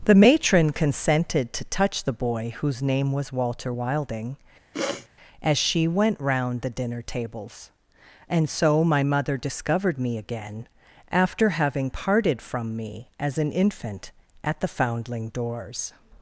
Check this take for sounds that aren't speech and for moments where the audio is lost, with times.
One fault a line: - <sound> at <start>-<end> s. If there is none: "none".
- sniff at 4.7-5.1 s